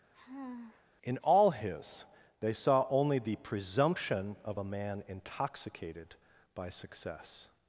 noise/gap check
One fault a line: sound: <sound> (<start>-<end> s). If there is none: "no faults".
sound: sigh (0.1-0.9 s)